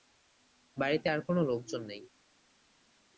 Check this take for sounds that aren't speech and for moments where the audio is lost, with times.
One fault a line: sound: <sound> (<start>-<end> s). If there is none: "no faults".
no faults